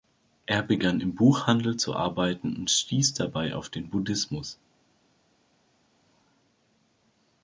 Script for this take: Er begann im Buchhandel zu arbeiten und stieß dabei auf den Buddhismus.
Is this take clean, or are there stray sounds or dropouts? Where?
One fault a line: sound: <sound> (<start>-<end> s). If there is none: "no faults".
no faults